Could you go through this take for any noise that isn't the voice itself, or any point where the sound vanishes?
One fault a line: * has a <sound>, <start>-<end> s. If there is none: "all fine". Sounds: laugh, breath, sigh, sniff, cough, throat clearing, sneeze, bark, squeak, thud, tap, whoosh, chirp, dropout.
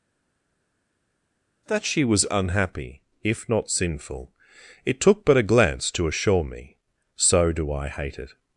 all fine